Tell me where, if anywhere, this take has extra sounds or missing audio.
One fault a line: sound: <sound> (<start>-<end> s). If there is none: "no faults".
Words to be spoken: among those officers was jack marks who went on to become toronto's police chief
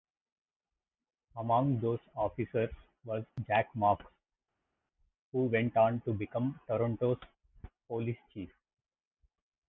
no faults